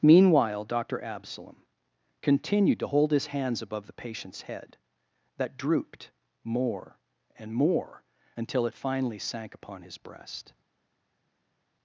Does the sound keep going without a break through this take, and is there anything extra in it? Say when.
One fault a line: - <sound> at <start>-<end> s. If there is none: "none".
none